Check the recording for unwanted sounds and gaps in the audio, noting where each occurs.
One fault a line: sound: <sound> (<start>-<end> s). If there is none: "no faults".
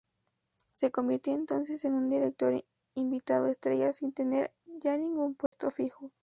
sound: dropout (5.5-5.5 s)